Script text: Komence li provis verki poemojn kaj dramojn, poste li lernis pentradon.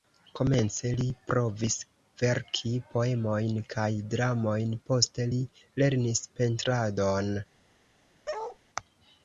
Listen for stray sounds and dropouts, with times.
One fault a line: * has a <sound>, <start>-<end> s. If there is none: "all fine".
* has a bark, 8.3-8.6 s